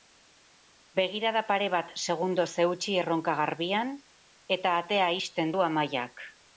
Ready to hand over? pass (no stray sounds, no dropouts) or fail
pass